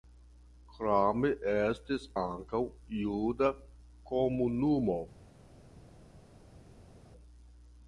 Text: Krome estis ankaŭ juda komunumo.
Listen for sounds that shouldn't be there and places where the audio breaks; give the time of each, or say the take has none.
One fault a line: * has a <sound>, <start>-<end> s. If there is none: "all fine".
all fine